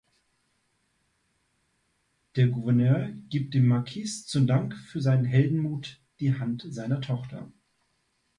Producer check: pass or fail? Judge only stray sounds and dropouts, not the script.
pass